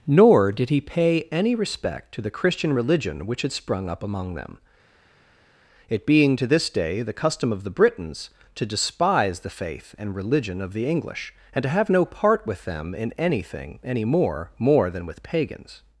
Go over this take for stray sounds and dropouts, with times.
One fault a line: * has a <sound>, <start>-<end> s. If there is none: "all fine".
all fine